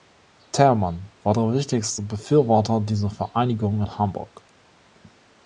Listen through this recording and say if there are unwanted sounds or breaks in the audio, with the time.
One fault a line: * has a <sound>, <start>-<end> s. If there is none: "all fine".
all fine